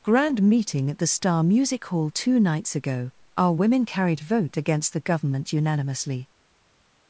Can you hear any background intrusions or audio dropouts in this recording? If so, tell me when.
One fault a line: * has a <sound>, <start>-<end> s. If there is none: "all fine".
all fine